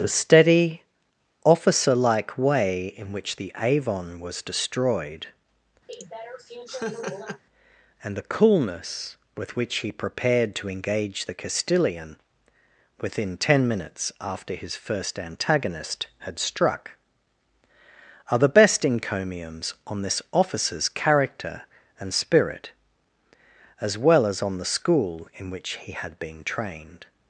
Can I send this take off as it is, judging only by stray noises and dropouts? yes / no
no